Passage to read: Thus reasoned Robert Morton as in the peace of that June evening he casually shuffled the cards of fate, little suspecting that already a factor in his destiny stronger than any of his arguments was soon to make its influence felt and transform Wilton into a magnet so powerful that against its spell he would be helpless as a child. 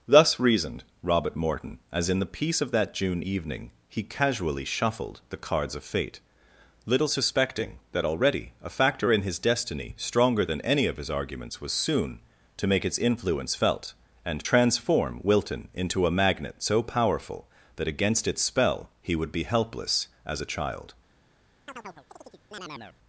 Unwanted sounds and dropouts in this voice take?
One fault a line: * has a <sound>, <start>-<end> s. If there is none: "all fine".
* has a chirp, 21.7-23.0 s